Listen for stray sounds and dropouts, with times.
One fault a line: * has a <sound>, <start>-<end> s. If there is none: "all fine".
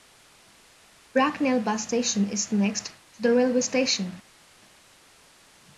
all fine